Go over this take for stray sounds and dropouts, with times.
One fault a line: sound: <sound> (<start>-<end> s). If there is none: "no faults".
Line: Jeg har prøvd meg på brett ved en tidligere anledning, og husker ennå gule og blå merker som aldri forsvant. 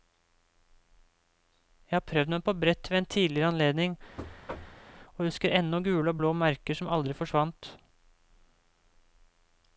sound: thud (4.2-4.8 s)